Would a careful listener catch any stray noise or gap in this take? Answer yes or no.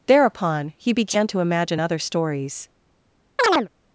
yes